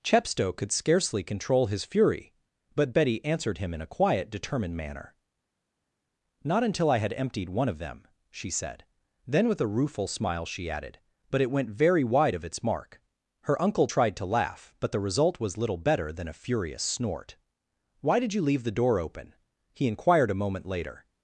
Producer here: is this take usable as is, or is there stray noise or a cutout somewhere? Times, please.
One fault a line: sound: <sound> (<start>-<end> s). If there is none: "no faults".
no faults